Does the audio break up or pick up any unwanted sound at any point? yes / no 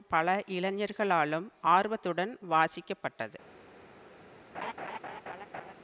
yes